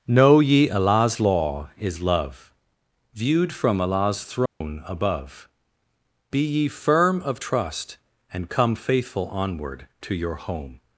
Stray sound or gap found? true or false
true